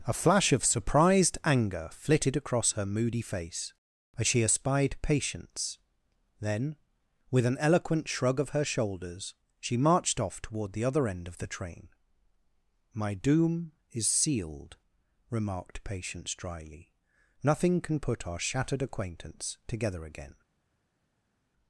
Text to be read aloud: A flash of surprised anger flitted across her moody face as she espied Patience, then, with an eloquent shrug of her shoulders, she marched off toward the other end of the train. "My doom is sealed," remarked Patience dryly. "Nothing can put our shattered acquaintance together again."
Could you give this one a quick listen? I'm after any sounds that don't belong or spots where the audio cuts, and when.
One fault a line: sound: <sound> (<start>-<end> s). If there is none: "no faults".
no faults